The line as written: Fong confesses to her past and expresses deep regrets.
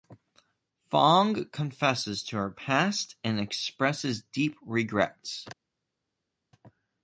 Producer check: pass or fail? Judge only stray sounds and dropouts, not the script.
pass